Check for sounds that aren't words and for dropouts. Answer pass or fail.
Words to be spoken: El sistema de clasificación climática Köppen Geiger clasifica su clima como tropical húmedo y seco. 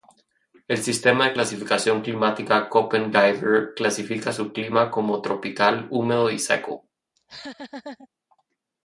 fail